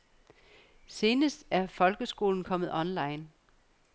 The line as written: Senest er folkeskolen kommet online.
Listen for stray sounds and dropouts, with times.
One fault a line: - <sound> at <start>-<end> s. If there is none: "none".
none